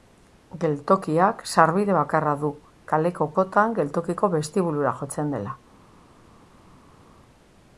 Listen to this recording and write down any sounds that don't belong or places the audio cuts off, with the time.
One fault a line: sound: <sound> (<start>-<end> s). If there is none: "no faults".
no faults